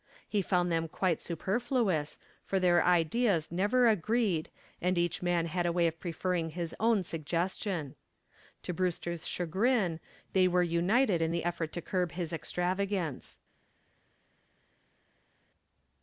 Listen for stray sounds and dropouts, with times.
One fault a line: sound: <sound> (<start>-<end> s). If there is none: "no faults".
no faults